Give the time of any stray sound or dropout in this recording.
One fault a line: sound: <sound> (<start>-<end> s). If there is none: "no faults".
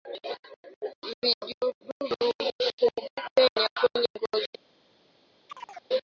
sound: chirp (5.5-5.9 s)